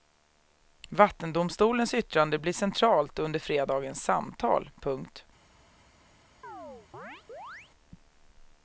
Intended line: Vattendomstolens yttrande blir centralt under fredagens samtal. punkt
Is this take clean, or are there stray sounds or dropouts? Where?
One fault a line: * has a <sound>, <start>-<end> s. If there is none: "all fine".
* has a chirp, 6.4-7.7 s